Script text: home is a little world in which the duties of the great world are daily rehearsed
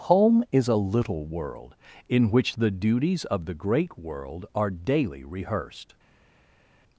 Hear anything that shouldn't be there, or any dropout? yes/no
no